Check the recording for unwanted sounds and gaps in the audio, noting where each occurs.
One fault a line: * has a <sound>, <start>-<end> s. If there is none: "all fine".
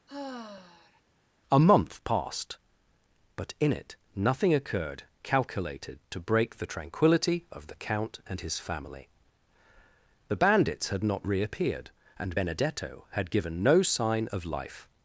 * has a sigh, 0.1-1.0 s